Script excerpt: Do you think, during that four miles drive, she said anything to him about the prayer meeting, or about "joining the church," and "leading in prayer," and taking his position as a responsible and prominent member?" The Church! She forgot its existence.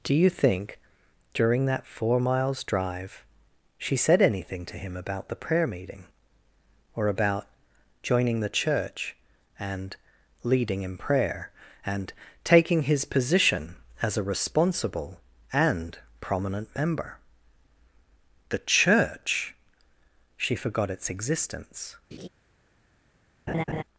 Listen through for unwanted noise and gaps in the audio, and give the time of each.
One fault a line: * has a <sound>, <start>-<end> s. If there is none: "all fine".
* has a laugh, 22.1-22.3 s
* has a laugh, 23.5-23.8 s